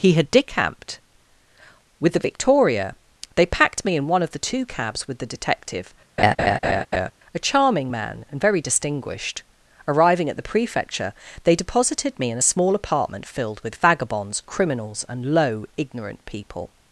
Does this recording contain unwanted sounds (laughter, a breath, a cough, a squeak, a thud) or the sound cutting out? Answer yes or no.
yes